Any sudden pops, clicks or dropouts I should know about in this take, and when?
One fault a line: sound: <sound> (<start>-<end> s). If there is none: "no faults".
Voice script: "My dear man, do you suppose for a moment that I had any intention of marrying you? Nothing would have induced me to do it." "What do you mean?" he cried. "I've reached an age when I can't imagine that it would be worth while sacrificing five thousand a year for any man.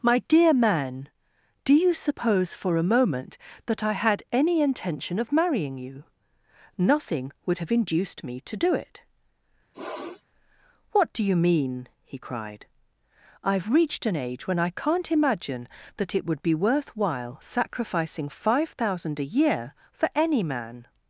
sound: sniff (9.7-10.2 s)